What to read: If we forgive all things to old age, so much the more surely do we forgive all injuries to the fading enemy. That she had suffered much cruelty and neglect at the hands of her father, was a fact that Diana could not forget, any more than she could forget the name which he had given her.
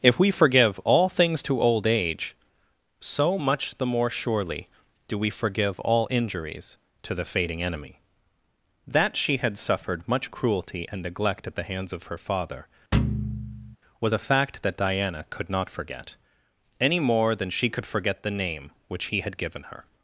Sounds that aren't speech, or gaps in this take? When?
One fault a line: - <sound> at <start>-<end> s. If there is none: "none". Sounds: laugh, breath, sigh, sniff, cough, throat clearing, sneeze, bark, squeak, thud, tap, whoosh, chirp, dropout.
- thud at 12.9-13.8 s